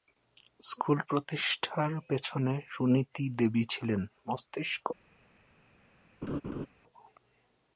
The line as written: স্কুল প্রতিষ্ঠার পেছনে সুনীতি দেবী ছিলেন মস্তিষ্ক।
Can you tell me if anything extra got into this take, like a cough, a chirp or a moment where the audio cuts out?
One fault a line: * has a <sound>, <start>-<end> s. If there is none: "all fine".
* has a laugh, 6.2-6.7 s